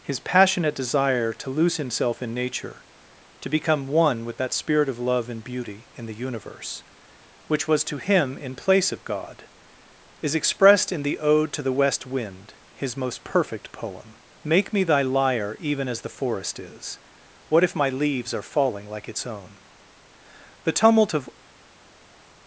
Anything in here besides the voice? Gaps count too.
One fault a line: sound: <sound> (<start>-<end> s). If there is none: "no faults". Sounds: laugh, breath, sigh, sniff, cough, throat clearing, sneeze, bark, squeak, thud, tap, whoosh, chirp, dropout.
no faults